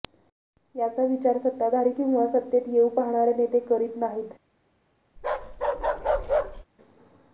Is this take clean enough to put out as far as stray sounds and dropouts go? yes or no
no